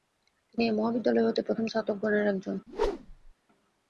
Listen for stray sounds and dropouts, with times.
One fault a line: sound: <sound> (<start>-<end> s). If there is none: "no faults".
sound: whoosh (2.7-3.3 s)